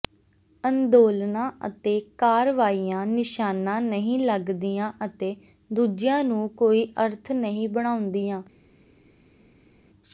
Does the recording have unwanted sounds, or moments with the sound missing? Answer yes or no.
no